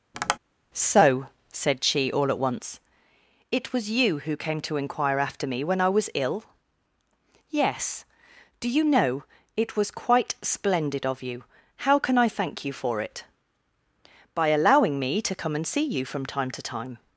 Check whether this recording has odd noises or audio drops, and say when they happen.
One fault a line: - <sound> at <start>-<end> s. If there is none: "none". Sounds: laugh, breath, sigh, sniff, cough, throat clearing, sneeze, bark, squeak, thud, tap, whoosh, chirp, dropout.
- tap at 0.1-0.4 s